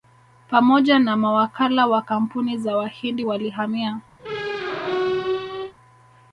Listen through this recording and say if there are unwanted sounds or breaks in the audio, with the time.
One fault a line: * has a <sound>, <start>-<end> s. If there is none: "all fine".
* has a squeak, 4.2-5.7 s